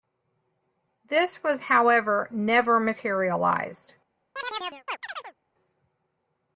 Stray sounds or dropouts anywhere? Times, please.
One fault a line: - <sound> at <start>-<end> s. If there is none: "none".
- chirp at 4.4-5.3 s